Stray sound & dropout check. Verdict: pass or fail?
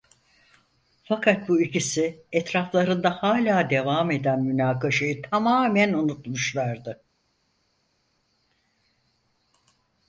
pass